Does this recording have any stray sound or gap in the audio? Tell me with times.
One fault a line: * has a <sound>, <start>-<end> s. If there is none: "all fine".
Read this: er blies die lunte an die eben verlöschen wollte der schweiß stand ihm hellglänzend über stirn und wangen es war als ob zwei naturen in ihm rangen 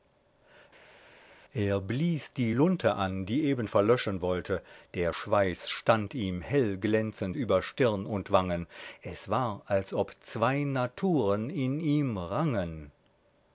all fine